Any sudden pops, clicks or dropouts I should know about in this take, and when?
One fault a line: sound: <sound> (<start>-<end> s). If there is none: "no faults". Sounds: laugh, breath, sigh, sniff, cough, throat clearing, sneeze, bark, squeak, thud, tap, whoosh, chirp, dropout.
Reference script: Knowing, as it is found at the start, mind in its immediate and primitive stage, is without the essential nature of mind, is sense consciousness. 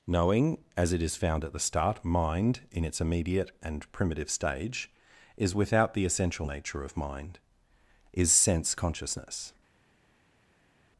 no faults